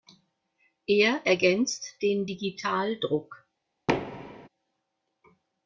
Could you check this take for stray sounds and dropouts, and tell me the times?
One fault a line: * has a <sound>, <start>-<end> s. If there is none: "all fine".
* has a thud, 3.9-4.5 s